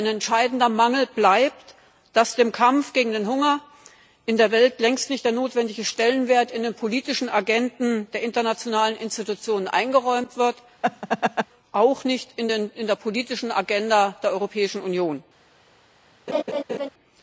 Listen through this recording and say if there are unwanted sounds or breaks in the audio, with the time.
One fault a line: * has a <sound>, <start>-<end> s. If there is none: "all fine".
* has a laugh, 10.8-11.5 s
* has a laugh, 16.3-16.9 s